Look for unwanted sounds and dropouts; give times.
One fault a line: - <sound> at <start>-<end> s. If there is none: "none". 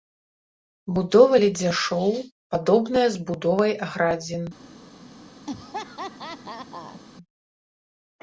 - laugh at 5.5-7.0 s